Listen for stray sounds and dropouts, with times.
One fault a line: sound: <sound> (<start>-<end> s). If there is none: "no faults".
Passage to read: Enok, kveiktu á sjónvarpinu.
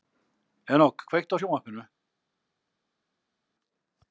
no faults